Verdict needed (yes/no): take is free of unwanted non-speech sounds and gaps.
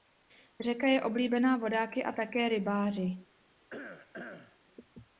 no